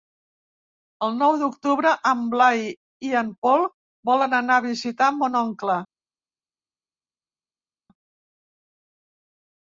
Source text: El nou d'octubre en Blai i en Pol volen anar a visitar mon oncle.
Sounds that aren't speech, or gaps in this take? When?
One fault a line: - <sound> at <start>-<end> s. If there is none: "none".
none